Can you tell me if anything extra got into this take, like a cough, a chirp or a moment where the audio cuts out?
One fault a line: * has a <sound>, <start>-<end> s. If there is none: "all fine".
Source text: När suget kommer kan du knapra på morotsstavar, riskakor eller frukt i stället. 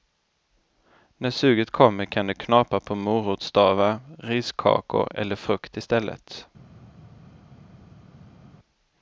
all fine